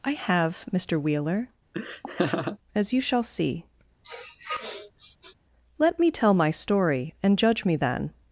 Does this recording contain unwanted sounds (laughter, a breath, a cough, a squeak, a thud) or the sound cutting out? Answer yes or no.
yes